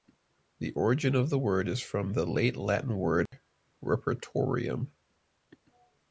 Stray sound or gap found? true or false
true